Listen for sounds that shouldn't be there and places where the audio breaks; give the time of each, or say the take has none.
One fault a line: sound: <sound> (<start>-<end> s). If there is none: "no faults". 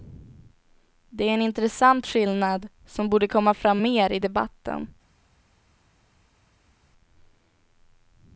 no faults